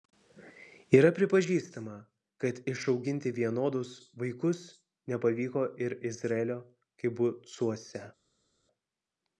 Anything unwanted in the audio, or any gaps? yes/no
no